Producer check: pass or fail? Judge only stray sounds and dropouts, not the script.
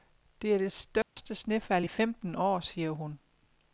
fail